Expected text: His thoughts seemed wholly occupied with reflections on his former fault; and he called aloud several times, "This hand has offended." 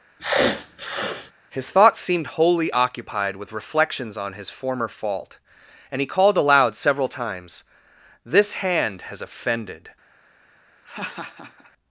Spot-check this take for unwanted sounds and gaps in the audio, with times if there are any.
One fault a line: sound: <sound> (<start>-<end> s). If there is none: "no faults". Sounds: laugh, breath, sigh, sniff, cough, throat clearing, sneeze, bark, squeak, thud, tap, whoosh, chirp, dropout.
sound: sniff (0.2-1.3 s)
sound: laugh (10.8-11.7 s)